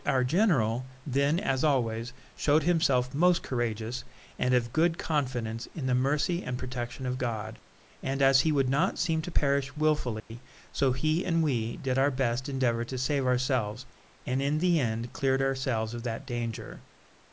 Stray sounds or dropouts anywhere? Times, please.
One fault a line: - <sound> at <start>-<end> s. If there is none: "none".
- dropout at 10.2-10.3 s